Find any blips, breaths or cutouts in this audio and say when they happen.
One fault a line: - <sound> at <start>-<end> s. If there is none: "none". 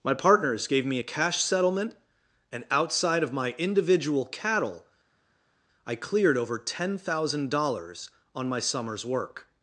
none